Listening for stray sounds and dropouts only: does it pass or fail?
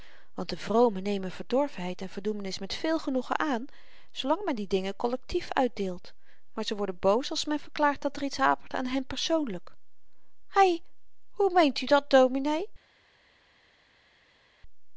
pass